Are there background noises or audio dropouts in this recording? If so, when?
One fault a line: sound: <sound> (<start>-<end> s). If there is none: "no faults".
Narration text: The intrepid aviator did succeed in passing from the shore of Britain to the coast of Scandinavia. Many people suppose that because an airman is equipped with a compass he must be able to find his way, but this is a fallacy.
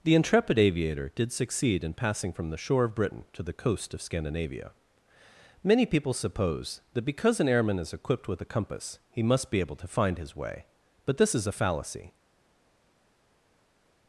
no faults